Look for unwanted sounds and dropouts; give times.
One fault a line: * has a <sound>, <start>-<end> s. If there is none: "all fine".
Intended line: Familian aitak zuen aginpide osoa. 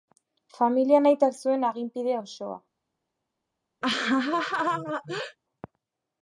* has a laugh, 3.8-5.4 s